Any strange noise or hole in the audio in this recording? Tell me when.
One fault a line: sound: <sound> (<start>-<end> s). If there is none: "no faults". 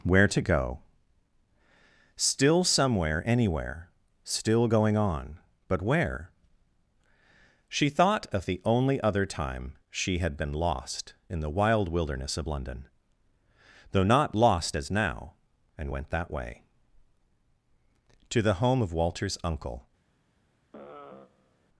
sound: sigh (20.7-21.7 s)